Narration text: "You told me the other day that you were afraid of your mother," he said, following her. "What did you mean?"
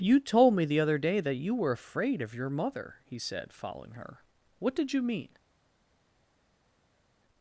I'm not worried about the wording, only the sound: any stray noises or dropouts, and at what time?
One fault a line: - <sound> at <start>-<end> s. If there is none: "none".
none